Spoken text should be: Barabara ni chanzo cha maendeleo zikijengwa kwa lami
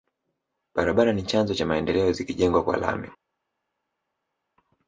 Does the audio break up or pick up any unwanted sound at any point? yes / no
no